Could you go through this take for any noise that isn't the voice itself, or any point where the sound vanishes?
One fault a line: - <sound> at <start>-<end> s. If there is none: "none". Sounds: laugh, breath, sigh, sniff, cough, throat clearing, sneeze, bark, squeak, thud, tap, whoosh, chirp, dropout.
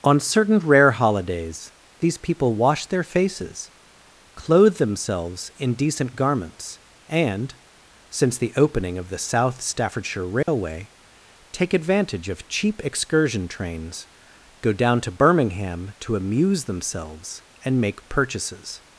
- dropout at 10.4-10.5 s